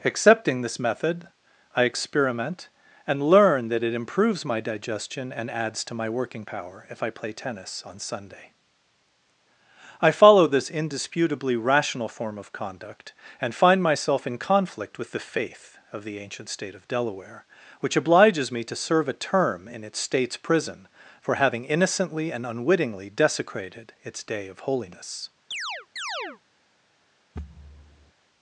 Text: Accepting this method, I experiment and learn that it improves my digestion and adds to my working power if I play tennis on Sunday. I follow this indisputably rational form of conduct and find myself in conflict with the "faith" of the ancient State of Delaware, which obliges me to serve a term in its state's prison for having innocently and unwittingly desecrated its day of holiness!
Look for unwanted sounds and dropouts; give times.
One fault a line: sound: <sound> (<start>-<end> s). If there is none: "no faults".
sound: chirp (25.5-26.4 s)
sound: thud (27.3-28.1 s)